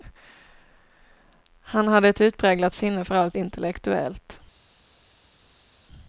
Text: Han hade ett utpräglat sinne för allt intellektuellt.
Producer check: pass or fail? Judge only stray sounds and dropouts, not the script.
pass